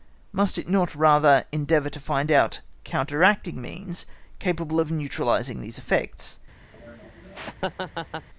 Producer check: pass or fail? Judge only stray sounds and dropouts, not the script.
fail